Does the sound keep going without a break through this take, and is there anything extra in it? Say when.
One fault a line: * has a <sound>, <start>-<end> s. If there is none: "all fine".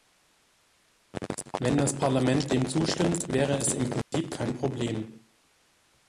* has a dropout, 4.0-4.1 s